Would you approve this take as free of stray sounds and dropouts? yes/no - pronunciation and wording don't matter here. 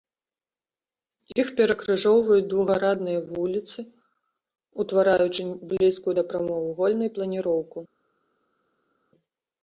yes